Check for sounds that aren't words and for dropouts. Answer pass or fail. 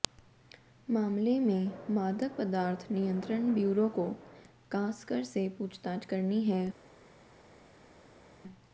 pass